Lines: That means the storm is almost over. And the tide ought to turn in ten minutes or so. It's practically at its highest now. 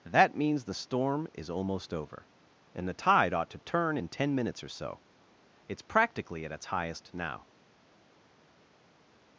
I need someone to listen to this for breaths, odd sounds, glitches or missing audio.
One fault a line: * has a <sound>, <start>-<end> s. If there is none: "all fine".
all fine